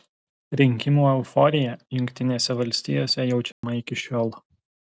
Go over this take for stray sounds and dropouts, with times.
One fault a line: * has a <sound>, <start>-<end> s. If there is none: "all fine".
* has a dropout, 3.5-3.6 s